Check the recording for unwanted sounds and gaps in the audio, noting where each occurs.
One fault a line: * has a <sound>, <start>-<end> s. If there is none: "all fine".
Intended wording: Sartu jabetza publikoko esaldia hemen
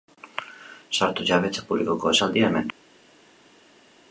all fine